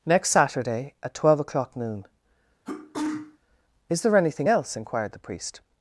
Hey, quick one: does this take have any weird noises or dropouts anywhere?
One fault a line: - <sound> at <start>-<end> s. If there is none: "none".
- sneeze at 2.7-3.4 s